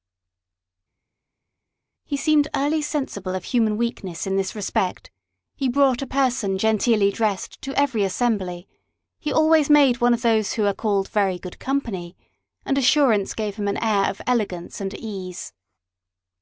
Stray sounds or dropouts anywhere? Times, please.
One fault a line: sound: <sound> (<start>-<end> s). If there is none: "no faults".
no faults